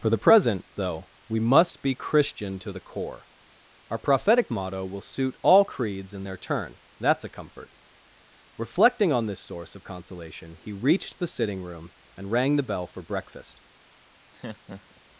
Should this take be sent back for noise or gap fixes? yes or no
yes